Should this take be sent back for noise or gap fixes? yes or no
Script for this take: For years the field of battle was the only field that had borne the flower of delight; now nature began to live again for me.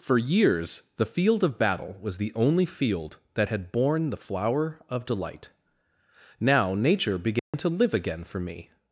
yes